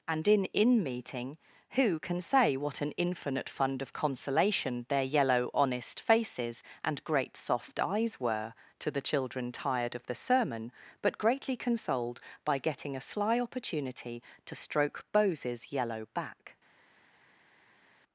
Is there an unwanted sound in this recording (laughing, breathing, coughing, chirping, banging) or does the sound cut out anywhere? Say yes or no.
no